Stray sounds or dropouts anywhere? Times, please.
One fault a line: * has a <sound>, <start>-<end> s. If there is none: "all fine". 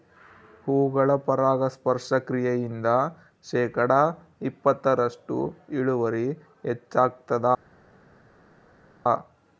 all fine